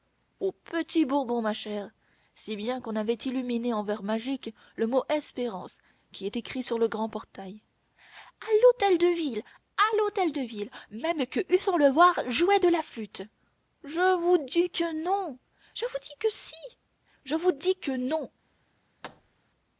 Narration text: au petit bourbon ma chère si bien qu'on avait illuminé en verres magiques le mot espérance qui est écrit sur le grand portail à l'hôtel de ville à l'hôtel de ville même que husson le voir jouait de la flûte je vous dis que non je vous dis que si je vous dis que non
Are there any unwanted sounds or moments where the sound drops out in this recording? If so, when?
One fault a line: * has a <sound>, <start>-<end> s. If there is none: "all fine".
* has a thud, 19.0-19.4 s